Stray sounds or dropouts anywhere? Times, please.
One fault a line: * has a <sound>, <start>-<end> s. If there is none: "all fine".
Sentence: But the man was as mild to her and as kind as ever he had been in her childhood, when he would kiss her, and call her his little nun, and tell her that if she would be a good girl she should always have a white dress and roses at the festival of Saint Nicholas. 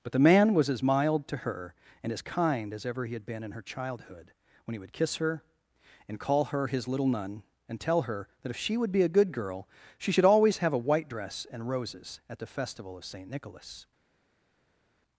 all fine